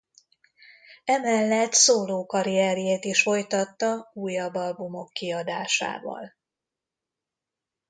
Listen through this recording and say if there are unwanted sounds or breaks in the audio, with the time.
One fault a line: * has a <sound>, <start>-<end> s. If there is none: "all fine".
all fine